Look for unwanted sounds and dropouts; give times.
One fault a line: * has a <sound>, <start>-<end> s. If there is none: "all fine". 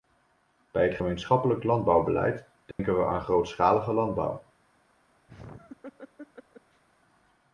* has a dropout, 2.7-2.8 s
* has a laugh, 5.3-6.8 s